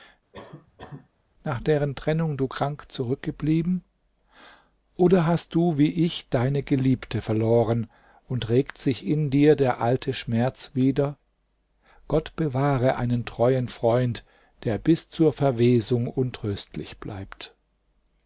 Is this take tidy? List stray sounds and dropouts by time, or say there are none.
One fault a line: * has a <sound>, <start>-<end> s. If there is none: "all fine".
* has a cough, 0.3-1.1 s